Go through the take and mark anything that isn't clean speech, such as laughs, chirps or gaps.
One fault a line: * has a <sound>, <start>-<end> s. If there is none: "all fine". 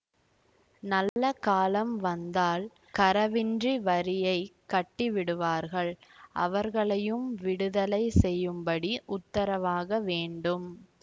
* has a dropout, 1.1-1.2 s